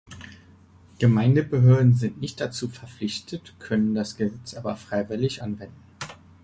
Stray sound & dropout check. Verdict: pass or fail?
pass